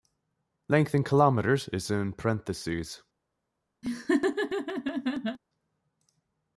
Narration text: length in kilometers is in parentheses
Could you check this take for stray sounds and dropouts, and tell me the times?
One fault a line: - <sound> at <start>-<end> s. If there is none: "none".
- laugh at 3.8-5.4 s